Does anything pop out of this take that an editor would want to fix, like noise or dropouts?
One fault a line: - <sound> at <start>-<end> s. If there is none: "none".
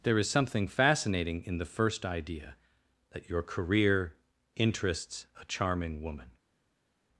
none